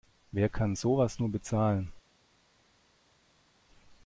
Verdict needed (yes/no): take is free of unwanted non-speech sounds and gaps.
yes